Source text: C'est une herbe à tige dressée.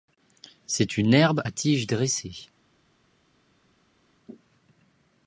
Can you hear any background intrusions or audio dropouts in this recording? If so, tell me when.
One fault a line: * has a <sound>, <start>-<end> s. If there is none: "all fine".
all fine